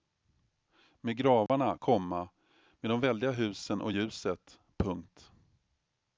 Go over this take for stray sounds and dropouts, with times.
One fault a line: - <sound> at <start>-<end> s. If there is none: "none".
- dropout at 1.5-1.5 s